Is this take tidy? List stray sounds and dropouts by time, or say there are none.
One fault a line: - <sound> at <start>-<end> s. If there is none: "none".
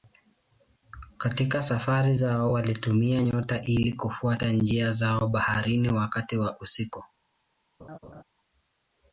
- laugh at 7.8-8.2 s